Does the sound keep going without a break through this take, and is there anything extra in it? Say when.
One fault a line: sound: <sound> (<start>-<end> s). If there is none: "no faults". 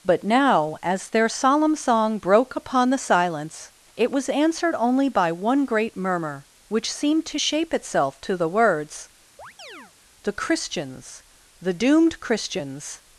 sound: chirp (9.4-9.9 s)